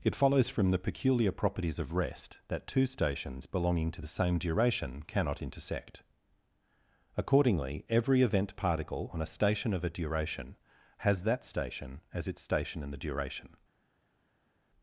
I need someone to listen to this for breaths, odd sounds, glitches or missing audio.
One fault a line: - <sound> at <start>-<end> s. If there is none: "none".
none